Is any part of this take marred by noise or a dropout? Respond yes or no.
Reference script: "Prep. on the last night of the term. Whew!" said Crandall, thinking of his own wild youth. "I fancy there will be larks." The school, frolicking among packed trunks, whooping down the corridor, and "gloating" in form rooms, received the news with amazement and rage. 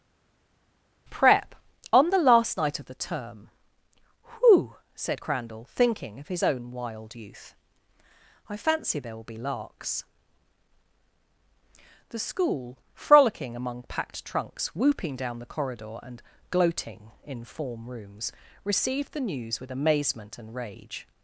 no